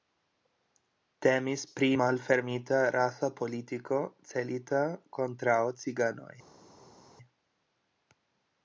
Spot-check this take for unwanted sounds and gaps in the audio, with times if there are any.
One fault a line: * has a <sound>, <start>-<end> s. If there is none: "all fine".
all fine